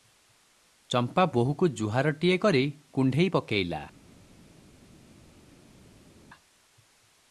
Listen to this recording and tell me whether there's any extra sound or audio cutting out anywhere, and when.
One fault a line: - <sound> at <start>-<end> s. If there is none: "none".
none